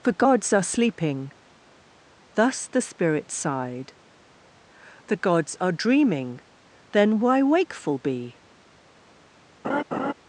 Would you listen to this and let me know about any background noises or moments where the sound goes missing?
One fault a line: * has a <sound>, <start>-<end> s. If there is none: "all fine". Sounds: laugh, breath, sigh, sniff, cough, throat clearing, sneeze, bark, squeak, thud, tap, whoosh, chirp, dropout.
* has a laugh, 9.6-10.1 s